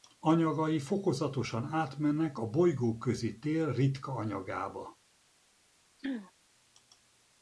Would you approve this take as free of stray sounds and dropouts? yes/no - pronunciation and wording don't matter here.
no